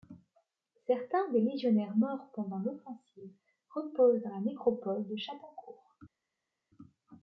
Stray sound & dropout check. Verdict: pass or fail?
pass